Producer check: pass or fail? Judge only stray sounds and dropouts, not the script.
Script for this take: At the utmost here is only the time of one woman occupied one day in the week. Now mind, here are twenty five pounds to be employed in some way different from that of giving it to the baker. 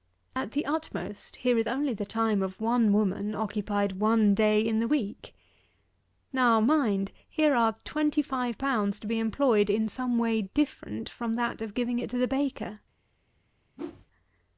fail